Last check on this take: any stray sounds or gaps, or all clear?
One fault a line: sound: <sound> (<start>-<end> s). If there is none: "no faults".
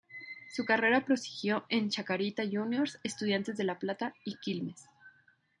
no faults